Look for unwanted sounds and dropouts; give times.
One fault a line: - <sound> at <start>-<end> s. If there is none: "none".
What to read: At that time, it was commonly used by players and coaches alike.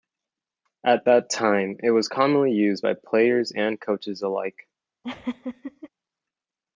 - laugh at 5.0-5.9 s